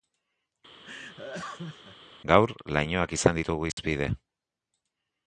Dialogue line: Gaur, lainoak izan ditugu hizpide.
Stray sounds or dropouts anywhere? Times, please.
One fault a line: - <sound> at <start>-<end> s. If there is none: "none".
- laugh at 0.8-2.0 s
- dropout at 3.7-3.8 s